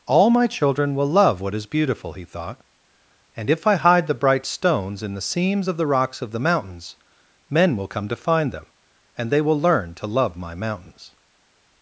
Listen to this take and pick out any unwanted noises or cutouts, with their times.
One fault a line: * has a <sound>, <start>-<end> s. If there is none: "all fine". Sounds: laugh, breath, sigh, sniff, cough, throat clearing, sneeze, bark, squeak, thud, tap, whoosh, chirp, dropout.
all fine